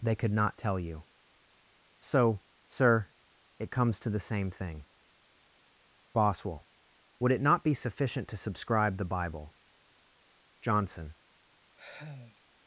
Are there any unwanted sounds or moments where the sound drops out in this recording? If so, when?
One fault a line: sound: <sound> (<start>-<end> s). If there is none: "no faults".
sound: sigh (11.8-12.4 s)